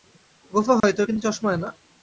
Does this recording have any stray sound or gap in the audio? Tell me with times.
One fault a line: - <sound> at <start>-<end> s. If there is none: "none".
- dropout at 0.8-0.8 s